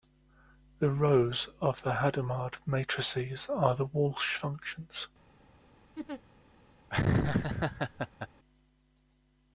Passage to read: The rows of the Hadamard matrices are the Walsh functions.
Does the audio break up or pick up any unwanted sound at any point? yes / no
yes